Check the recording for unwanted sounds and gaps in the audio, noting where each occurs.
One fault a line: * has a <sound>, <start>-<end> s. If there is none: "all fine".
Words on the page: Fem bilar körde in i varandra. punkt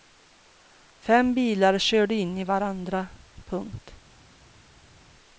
all fine